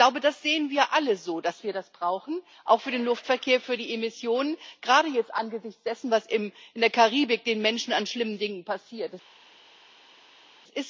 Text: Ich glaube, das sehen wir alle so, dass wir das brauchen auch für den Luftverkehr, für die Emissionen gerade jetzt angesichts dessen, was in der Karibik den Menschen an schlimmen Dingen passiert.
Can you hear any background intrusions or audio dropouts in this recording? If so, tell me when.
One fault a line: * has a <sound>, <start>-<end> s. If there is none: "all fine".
all fine